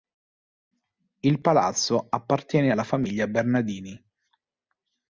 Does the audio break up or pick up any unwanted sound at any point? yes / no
no